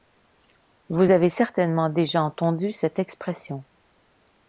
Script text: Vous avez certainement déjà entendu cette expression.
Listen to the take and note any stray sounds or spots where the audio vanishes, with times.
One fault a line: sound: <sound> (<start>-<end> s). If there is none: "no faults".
no faults